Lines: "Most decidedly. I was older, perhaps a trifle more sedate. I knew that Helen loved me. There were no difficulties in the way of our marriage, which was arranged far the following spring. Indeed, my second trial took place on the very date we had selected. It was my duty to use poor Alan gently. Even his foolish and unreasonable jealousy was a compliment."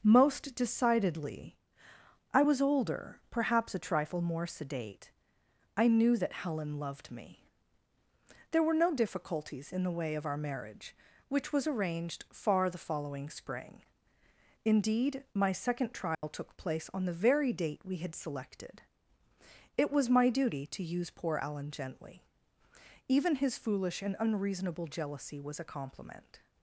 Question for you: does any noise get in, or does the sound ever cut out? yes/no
yes